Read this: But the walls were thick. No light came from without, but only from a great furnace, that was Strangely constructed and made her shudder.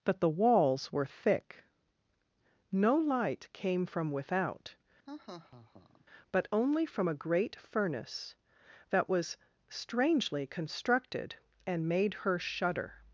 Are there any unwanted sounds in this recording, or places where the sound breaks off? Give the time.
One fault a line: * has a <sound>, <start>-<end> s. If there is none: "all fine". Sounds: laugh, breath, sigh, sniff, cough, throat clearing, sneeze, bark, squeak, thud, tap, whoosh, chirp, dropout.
* has a laugh, 5.1-6.1 s